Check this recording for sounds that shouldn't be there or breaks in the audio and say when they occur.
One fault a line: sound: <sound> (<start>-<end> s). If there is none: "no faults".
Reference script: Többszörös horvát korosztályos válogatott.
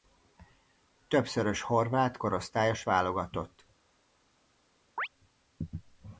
sound: chirp (5.0-5.1 s)